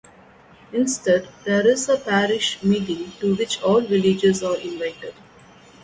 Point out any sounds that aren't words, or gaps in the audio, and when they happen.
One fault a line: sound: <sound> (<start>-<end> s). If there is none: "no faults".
no faults